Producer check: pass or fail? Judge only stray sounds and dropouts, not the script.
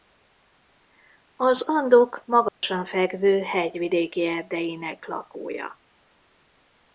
fail